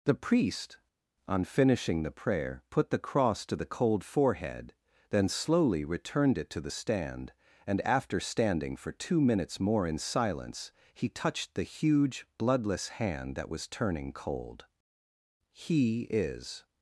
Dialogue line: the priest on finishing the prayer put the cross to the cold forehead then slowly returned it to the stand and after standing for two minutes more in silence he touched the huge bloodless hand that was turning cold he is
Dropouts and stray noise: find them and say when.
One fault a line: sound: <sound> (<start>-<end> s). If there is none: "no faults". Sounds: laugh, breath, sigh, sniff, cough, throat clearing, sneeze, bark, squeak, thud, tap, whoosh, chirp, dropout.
no faults